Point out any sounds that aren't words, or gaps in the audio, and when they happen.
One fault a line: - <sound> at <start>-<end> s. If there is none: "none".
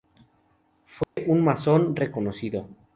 - dropout at 1.0-1.2 s